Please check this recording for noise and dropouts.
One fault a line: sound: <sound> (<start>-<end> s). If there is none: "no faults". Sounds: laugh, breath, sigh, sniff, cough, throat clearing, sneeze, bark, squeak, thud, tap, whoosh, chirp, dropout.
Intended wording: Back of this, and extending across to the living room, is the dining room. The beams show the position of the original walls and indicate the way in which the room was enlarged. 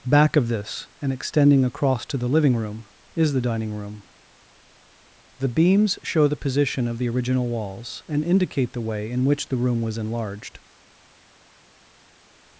no faults